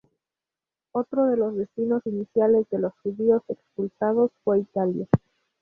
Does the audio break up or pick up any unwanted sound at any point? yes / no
no